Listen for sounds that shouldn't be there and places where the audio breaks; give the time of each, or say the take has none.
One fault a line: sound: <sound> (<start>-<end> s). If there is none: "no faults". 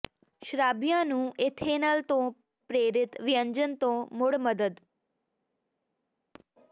no faults